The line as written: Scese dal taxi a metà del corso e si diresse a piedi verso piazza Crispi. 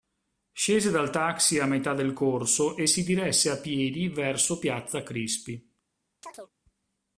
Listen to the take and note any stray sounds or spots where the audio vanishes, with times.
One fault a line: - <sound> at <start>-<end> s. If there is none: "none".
- chirp at 6.2-6.5 s